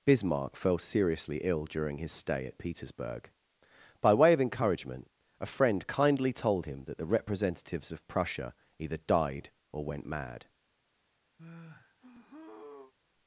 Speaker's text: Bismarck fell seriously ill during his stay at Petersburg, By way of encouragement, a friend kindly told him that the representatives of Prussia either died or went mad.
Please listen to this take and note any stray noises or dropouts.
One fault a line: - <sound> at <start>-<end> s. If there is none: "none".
- sigh at 11.4-12.9 s